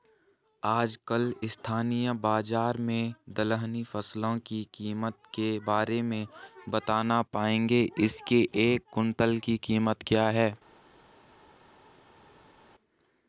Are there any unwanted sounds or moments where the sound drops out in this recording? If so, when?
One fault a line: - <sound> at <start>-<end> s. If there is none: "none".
none